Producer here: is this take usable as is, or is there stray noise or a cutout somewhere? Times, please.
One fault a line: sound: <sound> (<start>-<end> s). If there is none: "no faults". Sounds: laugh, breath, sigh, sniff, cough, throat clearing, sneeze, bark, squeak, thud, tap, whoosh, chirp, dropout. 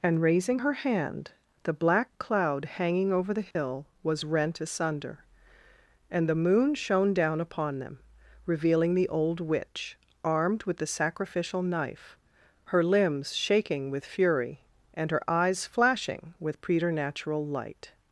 sound: dropout (3.5-3.6 s)